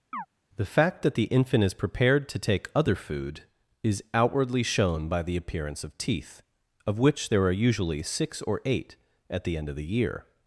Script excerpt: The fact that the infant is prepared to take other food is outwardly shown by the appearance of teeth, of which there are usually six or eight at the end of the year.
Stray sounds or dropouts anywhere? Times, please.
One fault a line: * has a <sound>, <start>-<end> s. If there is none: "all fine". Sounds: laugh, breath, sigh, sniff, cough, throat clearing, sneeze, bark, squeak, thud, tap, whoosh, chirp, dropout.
* has a chirp, 0.1-0.3 s